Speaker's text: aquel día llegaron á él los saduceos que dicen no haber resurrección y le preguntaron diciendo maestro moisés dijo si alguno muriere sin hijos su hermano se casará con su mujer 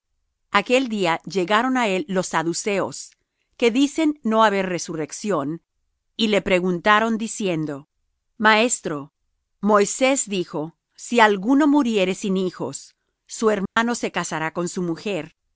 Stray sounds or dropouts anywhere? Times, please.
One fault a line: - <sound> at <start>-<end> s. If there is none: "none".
- dropout at 13.7-13.8 s